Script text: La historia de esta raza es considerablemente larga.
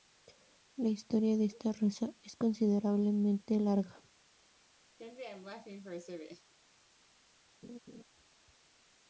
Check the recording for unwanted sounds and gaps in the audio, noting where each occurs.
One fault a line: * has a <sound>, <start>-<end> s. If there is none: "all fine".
* has a laugh, 5.0-6.5 s
* has a laugh, 7.6-8.0 s